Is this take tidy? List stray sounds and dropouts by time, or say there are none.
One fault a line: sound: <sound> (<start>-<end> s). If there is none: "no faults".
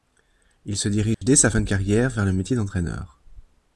sound: dropout (1.1-1.2 s)